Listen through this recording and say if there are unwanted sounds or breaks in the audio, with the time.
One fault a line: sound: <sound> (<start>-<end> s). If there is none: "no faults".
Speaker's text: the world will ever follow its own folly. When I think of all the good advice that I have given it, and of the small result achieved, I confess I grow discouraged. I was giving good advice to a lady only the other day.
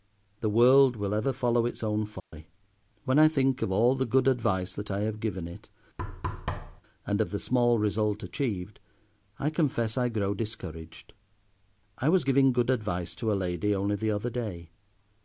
sound: dropout (2.2-2.3 s)
sound: thud (6.0-6.8 s)